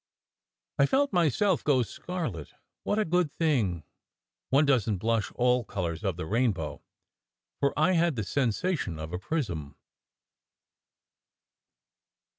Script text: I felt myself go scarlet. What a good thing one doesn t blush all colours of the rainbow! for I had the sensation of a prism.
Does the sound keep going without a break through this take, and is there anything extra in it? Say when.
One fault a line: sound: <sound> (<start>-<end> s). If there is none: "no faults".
no faults